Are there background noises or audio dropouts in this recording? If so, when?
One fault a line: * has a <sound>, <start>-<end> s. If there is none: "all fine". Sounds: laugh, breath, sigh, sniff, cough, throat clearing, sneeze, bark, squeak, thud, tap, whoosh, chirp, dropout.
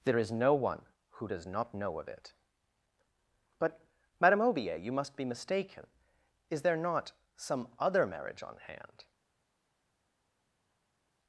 all fine